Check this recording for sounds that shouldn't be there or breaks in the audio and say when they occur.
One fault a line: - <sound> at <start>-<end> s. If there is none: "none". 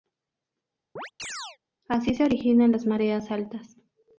- chirp at 1.0-1.6 s